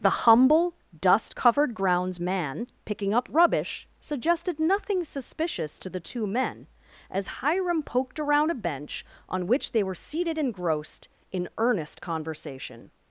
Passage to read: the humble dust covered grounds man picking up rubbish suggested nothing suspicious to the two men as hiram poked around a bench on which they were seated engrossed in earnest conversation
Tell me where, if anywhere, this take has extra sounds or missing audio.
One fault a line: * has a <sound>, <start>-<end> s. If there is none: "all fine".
all fine